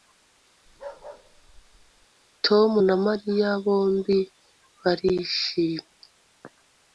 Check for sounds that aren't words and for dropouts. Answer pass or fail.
fail